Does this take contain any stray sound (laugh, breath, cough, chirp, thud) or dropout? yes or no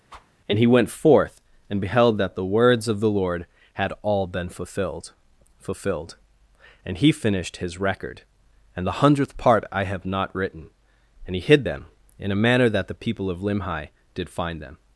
yes